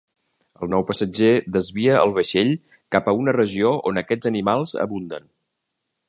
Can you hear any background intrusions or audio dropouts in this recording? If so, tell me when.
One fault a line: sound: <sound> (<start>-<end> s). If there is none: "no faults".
no faults